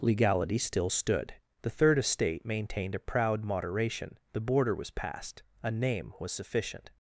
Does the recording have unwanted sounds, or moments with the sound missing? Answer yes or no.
no